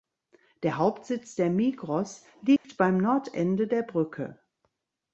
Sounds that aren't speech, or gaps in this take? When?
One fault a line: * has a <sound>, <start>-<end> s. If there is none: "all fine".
* has a dropout, 2.6-2.6 s